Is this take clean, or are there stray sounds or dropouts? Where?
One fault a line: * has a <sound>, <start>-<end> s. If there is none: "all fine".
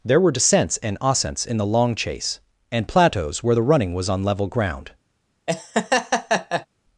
* has a laugh, 5.5-6.7 s